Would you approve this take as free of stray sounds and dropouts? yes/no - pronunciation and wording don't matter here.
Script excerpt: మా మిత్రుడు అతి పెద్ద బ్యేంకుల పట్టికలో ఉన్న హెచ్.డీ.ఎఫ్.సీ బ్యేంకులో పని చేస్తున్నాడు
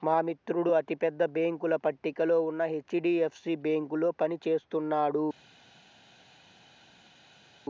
yes